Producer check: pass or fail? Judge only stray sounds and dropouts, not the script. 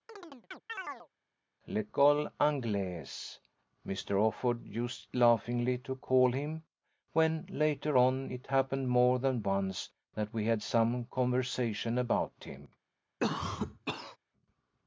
fail